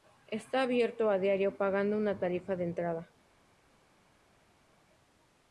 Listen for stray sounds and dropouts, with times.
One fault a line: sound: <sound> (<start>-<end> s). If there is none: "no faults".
no faults